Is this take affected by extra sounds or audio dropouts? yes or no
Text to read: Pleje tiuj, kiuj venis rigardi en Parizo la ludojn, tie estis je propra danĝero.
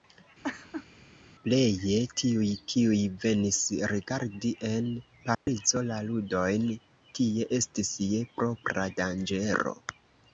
yes